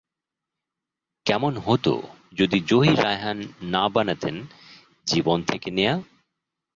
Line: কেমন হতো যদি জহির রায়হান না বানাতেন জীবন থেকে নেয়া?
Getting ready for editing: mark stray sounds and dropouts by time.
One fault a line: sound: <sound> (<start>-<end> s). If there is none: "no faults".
no faults